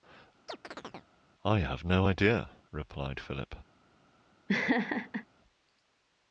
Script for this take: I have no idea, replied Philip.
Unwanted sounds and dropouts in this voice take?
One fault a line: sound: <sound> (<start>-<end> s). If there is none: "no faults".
sound: chirp (0.5-1.1 s)
sound: laugh (4.5-5.3 s)